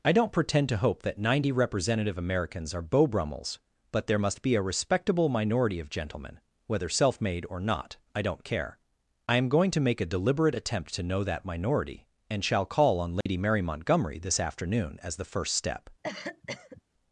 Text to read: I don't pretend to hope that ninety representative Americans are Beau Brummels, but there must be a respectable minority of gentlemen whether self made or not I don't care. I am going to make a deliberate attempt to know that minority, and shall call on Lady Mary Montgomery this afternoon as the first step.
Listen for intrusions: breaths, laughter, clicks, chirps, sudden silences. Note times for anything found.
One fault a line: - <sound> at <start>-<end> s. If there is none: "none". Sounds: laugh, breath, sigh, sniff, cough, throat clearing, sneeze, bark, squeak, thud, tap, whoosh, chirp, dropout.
- dropout at 13.2-13.3 s
- cough at 16.0-16.8 s